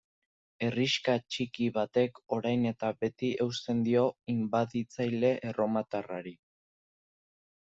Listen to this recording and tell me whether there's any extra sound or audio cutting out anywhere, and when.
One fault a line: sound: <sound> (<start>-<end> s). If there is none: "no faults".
no faults